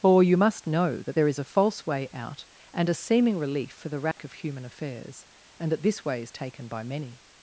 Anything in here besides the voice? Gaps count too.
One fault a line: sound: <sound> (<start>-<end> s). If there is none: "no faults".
sound: dropout (4.1-4.2 s)